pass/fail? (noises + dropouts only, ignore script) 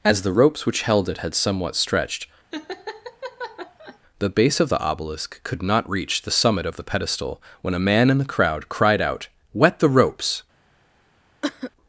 fail